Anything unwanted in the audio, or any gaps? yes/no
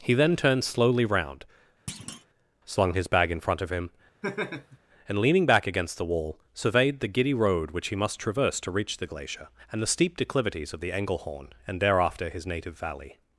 yes